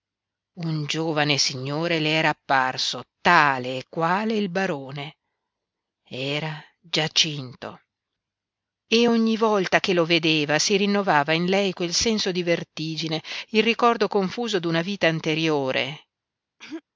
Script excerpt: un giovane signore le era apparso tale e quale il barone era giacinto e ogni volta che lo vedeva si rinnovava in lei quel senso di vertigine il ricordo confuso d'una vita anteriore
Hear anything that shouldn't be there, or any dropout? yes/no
yes